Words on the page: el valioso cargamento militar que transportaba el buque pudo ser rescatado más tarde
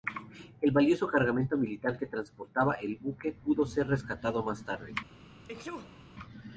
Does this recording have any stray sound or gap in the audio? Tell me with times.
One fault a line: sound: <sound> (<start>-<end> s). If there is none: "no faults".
sound: sneeze (5.4-6.1 s)